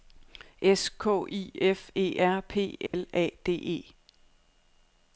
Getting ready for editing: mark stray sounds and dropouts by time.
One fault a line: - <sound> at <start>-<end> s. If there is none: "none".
- dropout at 2.9-2.9 s